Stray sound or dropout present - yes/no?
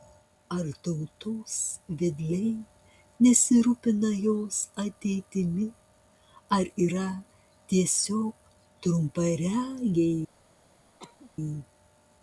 yes